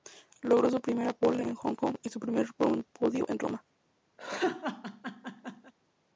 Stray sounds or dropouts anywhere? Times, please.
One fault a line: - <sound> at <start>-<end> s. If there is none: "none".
- laugh at 4.2-5.7 s